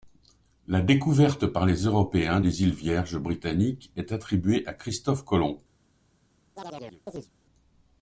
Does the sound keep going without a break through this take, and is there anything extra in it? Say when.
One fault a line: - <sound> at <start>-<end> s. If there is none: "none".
- chirp at 6.6-7.3 s